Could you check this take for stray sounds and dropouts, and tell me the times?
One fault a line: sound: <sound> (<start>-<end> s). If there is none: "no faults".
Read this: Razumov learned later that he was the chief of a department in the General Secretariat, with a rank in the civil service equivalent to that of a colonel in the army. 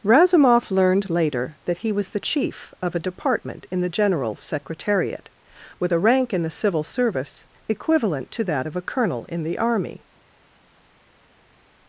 no faults